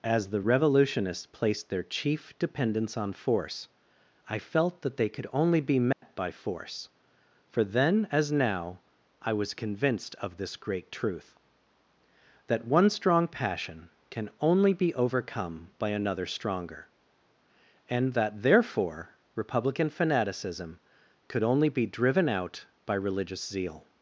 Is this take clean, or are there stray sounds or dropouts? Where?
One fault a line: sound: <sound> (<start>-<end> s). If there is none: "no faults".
sound: dropout (5.9-6.0 s)